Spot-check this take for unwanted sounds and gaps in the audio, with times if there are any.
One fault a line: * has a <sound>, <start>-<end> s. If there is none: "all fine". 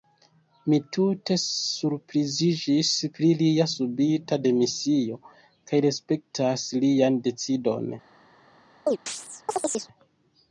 * has a chirp, 8.9-9.9 s